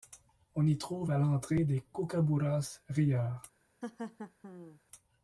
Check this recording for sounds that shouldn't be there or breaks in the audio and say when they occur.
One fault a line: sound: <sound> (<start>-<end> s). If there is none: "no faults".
sound: laugh (3.8-4.8 s)